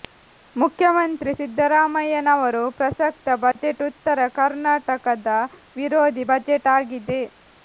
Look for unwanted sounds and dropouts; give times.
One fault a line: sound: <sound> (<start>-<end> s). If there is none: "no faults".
sound: dropout (3.5-3.6 s)